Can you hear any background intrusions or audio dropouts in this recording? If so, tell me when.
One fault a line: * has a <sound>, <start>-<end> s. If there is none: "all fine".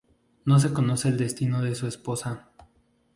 all fine